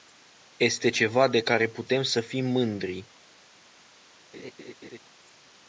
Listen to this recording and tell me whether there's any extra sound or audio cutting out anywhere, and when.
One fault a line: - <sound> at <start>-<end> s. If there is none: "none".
- laugh at 4.3-5.0 s